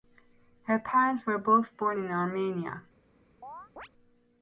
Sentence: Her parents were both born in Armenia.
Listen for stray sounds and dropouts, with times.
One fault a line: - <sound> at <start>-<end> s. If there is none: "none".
- chirp at 3.4-3.9 s